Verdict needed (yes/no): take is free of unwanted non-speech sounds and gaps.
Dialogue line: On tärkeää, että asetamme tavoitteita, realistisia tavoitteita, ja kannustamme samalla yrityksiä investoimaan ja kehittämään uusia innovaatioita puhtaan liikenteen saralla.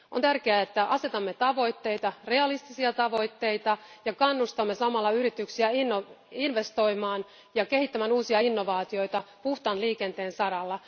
yes